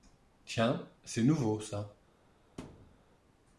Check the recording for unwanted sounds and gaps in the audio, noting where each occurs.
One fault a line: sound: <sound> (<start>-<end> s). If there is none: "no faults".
sound: thud (2.6-3.0 s)